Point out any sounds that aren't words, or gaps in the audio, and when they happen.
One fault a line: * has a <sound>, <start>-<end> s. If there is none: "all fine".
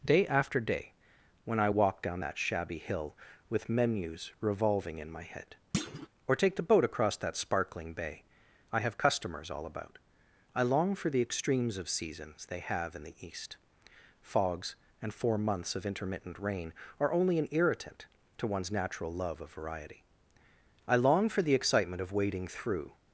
* has a thud, 5.7-6.1 s